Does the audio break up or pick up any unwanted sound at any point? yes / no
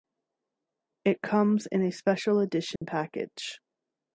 yes